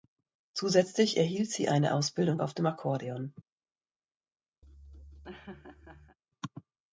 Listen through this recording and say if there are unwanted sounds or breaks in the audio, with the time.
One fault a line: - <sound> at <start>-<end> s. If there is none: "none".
- laugh at 4.6-6.2 s